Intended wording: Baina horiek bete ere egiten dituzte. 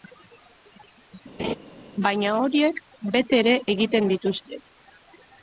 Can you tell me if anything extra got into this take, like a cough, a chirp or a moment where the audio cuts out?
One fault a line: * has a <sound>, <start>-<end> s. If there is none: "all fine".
* has a laugh, 1.4-1.5 s